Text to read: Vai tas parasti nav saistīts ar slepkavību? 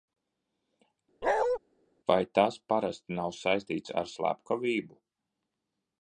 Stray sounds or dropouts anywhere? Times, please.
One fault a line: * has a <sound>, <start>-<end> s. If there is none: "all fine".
* has a bark, 1.2-1.6 s